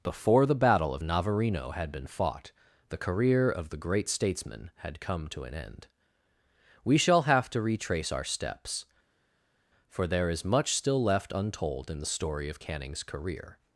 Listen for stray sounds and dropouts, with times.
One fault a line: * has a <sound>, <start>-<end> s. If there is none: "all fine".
all fine